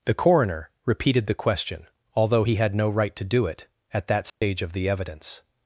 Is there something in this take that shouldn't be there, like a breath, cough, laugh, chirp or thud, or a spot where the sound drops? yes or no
yes